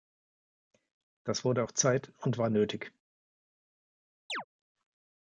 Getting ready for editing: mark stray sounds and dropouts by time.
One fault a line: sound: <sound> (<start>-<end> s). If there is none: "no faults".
sound: chirp (4.3-4.4 s)